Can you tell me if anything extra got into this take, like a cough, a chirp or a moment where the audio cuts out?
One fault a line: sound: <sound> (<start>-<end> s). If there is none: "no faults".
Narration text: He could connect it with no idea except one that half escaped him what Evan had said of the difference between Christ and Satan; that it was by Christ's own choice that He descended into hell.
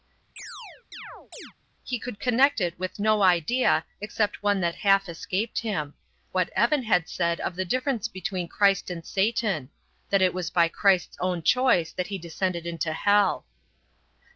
sound: chirp (0.4-1.5 s)